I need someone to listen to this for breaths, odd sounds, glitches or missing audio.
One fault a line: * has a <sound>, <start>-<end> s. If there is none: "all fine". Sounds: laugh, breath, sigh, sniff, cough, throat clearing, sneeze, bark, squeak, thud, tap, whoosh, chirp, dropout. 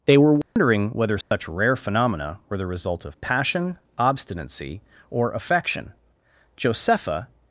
* has a dropout, 0.4-0.6 s
* has a dropout, 1.2-1.3 s